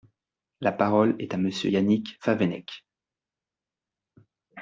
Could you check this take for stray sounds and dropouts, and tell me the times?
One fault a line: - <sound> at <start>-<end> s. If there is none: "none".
none